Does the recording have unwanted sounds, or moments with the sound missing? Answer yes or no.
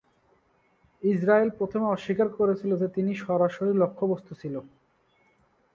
no